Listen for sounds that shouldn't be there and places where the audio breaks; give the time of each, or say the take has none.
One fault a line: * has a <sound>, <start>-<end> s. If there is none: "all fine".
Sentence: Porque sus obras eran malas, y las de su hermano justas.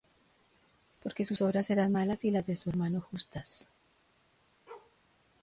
* has a bark, 4.7-5.0 s